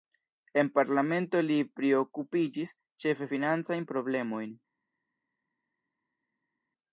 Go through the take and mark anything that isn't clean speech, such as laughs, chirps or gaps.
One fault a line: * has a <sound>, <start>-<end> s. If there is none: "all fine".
all fine